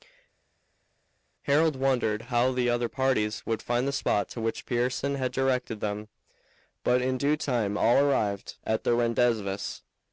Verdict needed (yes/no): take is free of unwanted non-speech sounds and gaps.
yes